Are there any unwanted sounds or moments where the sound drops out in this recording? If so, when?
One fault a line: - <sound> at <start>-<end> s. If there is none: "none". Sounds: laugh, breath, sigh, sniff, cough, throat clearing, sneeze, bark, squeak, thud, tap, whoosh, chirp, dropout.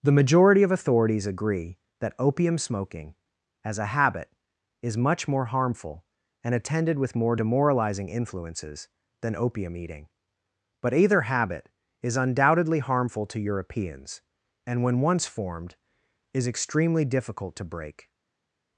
none